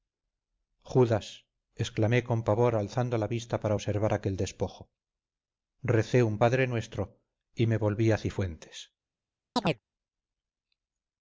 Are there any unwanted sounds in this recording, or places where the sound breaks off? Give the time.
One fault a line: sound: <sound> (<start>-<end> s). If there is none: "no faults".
sound: chirp (9.6-9.8 s)